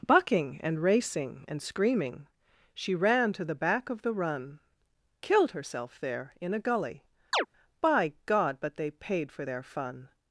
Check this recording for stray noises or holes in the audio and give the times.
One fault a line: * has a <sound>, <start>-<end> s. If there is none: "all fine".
* has a chirp, 7.3-7.5 s